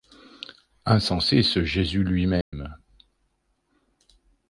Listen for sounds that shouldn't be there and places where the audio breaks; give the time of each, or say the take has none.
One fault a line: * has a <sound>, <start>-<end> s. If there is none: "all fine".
* has a dropout, 2.4-2.5 s